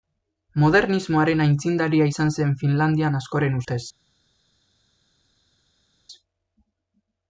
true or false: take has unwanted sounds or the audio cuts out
false